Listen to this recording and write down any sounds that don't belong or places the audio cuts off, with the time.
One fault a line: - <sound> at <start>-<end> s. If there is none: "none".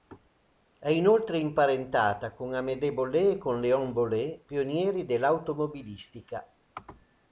none